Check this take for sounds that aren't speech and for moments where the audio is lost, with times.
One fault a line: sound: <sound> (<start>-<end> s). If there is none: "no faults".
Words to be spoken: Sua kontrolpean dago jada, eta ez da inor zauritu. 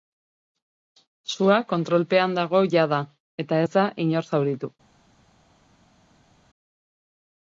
no faults